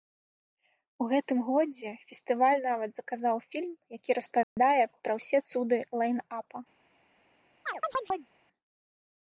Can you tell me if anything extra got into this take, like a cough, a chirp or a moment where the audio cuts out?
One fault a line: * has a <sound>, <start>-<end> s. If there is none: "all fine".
* has a dropout, 4.4-4.6 s
* has a chirp, 7.7-8.3 s